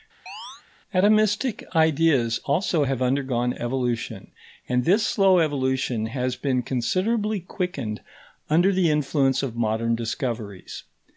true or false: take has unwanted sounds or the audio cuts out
true